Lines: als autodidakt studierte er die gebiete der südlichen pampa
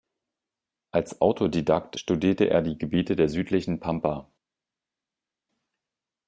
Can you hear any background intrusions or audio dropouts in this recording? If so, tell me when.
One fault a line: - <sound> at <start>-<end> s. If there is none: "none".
none